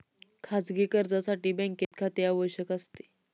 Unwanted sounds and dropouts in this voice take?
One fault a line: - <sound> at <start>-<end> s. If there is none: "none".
- dropout at 1.8-1.9 s